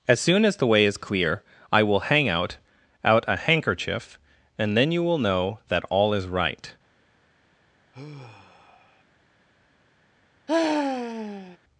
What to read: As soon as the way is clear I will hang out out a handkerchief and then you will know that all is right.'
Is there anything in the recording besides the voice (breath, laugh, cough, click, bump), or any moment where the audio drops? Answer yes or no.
yes